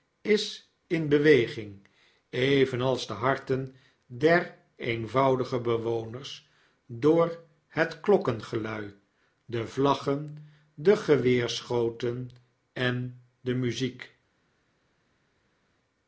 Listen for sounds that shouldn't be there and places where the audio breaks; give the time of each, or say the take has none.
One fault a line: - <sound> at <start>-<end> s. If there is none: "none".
none